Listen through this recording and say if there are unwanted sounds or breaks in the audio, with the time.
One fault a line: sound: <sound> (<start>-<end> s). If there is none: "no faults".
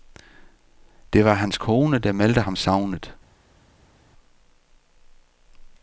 no faults